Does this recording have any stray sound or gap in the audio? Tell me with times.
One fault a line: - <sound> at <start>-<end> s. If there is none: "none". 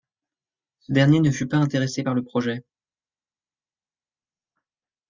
none